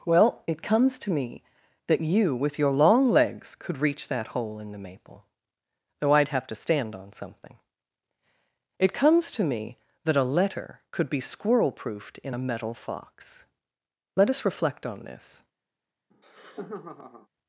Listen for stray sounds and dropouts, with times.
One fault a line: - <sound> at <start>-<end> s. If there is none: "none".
- laugh at 16.1-17.3 s